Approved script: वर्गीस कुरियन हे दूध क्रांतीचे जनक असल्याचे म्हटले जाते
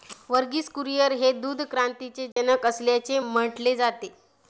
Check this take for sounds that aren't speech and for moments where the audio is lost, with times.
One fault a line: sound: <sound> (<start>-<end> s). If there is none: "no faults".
sound: dropout (2.3-2.4 s)